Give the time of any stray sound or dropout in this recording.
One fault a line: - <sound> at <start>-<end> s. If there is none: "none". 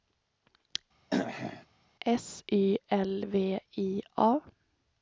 - throat clearing at 1.1-1.7 s